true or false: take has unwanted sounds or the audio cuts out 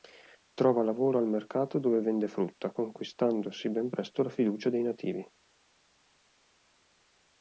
false